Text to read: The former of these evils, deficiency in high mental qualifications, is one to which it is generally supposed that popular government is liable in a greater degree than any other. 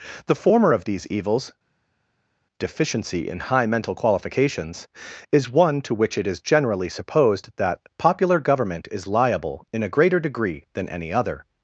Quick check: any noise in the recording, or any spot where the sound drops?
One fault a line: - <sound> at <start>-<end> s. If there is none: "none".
none